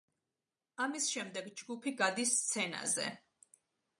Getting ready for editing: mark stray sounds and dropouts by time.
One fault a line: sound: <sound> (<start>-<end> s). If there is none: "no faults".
no faults